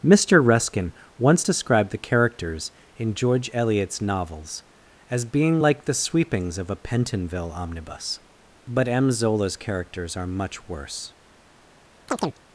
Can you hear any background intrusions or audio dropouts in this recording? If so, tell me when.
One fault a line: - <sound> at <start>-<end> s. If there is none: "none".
- chirp at 12.1-12.4 s